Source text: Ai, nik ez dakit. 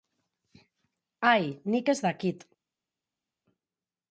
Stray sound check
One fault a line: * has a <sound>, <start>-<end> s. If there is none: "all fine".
all fine